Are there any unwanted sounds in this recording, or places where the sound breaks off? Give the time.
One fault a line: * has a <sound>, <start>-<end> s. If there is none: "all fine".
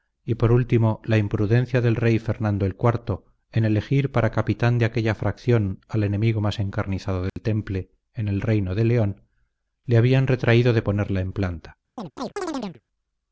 * has a dropout, 7.3-7.4 s
* has a chirp, 12.0-12.8 s